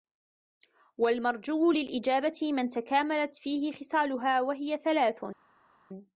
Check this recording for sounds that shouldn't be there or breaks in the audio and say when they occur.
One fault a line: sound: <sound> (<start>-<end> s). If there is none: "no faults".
no faults